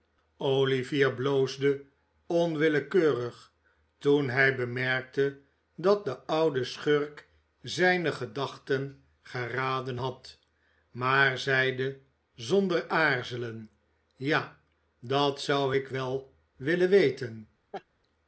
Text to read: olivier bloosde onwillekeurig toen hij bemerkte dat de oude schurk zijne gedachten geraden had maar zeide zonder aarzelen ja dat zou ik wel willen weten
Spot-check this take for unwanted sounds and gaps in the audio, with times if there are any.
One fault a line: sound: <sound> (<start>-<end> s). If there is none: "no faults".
sound: laugh (17.7-17.8 s)